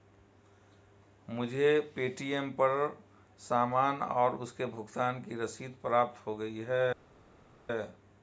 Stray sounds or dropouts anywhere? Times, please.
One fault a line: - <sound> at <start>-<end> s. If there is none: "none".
none